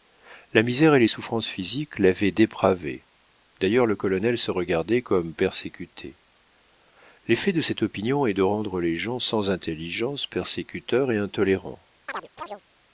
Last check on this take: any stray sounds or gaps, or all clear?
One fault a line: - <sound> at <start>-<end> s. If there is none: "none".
- chirp at 12.1-12.6 s